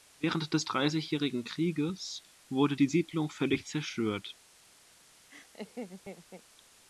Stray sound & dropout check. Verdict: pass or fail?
fail